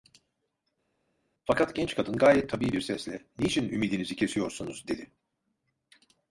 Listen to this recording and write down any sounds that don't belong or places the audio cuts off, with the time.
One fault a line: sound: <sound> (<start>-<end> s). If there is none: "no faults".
no faults